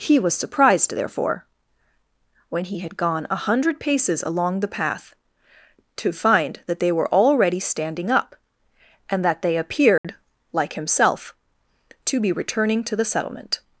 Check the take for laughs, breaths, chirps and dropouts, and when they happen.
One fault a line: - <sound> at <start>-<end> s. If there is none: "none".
- dropout at 10.0-10.0 s